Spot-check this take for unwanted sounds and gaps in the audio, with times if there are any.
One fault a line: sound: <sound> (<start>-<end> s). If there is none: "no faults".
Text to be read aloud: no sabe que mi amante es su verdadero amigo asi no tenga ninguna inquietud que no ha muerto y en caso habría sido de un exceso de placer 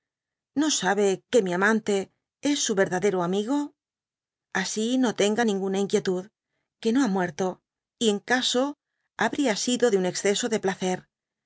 no faults